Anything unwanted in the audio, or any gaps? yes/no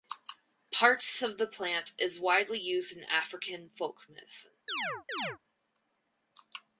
yes